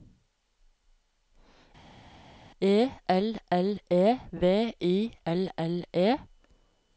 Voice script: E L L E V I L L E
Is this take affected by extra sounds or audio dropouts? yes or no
no